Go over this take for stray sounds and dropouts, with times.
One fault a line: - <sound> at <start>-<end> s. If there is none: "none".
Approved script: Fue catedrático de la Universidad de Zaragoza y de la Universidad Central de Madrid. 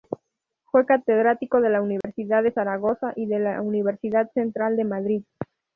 - dropout at 2.0-2.0 s